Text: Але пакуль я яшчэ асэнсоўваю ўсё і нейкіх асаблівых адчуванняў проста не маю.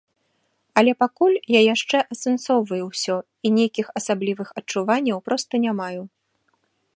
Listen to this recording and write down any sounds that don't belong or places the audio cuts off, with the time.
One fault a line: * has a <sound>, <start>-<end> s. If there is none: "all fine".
all fine